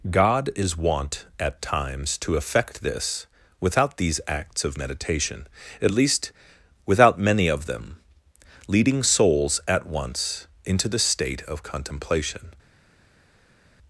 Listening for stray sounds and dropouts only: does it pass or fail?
pass